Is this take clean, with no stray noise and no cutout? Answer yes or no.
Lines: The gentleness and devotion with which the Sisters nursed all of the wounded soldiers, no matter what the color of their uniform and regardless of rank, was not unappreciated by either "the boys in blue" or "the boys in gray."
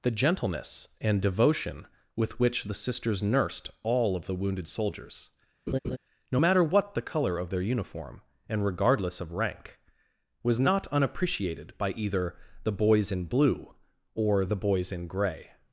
no